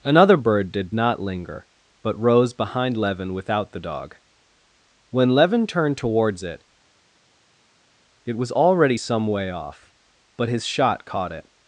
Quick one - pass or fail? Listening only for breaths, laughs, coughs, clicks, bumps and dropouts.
pass